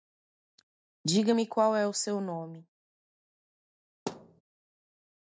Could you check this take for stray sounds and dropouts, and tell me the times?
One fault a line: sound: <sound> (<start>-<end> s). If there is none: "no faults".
sound: thud (4.1-4.4 s)